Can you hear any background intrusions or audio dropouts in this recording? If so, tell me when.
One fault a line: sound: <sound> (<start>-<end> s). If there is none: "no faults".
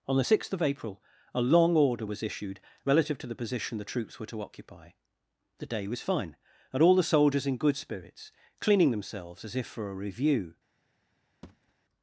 sound: thud (11.4-11.7 s)